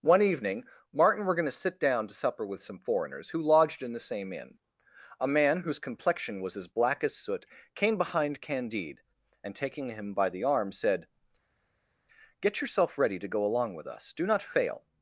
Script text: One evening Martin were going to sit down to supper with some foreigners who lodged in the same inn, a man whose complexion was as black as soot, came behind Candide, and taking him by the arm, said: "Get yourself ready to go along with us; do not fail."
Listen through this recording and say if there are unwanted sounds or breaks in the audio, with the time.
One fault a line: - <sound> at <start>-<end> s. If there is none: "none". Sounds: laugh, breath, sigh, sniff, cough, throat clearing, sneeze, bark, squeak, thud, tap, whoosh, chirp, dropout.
none